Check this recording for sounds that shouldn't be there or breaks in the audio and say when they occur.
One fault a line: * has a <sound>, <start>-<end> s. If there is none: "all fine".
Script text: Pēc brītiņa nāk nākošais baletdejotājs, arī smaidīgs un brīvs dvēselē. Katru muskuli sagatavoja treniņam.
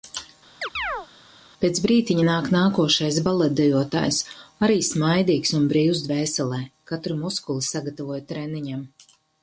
* has a chirp, 0.6-1.1 s